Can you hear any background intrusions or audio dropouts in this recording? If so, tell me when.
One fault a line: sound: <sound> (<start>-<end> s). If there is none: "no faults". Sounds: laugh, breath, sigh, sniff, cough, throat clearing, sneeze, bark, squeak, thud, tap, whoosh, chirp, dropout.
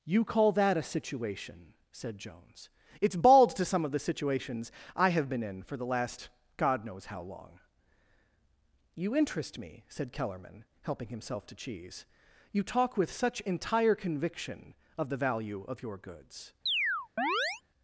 sound: chirp (16.7-17.6 s)